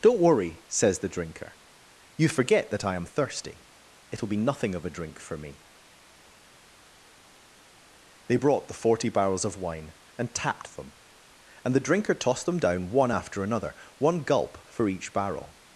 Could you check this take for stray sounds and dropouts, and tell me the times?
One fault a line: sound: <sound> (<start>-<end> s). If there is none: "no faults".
no faults